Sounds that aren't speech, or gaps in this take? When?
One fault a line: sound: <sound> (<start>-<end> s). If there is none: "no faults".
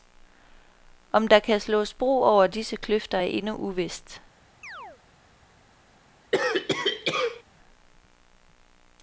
sound: chirp (4.6-5.0 s)
sound: cough (6.3-7.4 s)